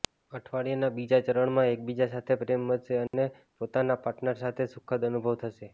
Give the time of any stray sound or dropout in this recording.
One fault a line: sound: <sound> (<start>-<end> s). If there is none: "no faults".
sound: dropout (3.1-3.1 s)